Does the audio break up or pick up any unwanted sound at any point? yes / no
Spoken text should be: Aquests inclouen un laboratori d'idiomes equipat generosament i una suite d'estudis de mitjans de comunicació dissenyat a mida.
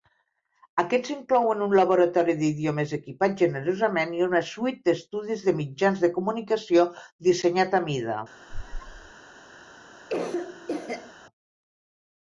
yes